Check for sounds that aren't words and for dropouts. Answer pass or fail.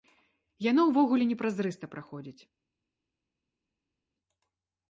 pass